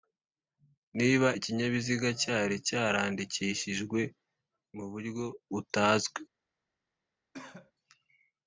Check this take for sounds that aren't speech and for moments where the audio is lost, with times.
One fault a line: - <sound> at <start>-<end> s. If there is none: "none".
- cough at 7.3-7.7 s